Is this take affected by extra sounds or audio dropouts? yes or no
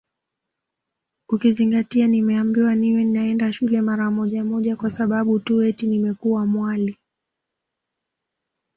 no